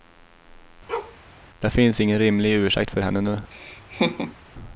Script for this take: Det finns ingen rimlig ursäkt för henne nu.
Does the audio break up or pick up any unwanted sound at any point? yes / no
yes